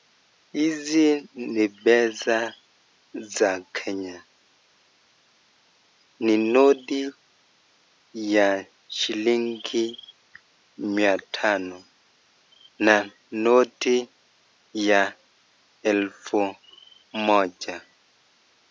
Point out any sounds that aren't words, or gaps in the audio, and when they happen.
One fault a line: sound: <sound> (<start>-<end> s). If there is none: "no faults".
no faults